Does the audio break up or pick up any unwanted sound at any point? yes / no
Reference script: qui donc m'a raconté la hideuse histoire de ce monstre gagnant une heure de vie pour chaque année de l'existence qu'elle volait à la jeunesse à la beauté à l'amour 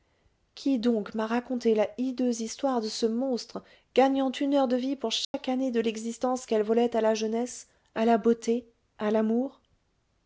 yes